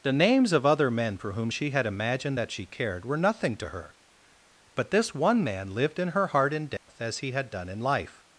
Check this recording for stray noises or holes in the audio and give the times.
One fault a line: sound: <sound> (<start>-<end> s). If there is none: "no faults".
sound: dropout (6.8-6.9 s)